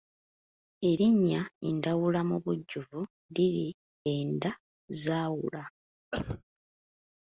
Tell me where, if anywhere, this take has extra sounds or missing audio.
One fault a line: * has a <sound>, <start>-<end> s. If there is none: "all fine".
* has a cough, 6.1-6.4 s